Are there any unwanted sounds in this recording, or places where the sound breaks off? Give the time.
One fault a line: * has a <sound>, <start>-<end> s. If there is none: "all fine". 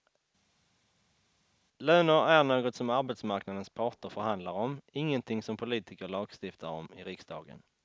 all fine